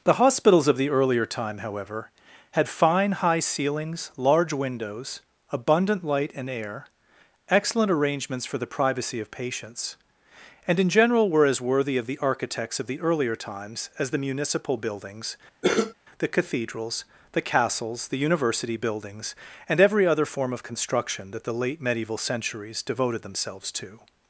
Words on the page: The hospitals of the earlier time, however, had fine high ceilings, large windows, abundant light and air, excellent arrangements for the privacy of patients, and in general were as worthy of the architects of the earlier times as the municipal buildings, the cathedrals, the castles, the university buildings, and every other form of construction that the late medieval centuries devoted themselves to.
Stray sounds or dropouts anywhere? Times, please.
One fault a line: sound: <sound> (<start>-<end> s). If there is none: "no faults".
sound: cough (15.6-15.9 s)